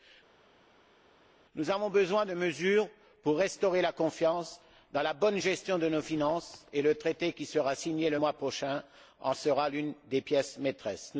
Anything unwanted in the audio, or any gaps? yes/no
no